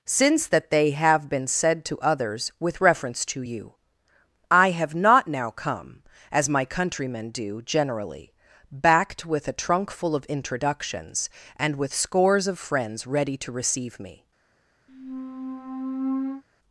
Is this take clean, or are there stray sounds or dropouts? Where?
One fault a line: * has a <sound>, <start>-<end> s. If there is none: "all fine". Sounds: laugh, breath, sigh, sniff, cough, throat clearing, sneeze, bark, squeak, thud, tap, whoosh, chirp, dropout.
* has a squeak, 14.9-16.4 s